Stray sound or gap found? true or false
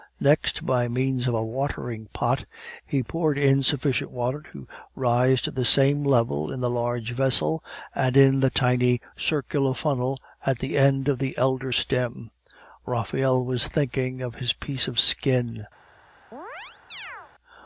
true